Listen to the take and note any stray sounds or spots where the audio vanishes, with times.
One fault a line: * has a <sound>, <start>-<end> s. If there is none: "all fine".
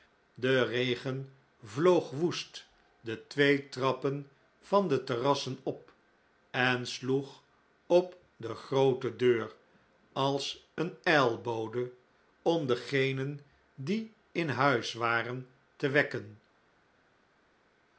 all fine